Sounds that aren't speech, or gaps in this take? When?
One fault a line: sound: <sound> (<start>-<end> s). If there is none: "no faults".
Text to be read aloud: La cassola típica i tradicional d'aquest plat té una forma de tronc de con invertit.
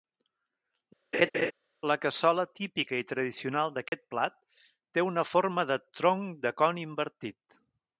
sound: laugh (1.1-1.5 s)
sound: dropout (3.9-3.9 s)